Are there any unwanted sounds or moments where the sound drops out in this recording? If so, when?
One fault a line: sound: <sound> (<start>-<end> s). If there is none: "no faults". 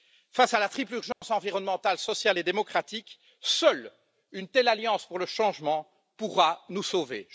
sound: dropout (1.1-1.2 s)